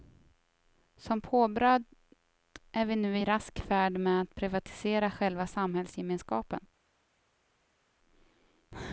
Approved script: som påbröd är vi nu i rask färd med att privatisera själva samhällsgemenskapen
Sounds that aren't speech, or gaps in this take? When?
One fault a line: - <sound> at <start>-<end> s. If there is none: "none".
none